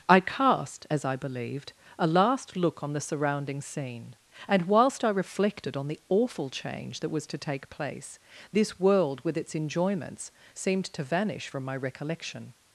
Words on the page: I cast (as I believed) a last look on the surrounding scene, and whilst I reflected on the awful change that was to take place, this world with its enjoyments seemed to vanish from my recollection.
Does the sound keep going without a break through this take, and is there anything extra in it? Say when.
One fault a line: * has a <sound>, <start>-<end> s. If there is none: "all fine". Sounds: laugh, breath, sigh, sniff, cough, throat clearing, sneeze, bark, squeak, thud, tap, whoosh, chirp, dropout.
all fine